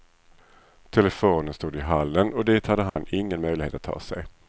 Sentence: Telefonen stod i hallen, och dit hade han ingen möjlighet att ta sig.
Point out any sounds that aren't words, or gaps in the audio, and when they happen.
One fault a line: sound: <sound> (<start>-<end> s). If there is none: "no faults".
sound: dropout (2.9-3.0 s)